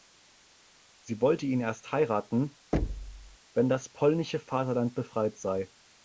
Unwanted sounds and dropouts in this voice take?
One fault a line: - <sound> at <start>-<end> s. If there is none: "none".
- thud at 2.7-3.4 s